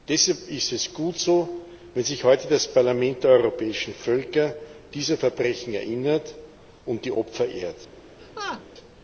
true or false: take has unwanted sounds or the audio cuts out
true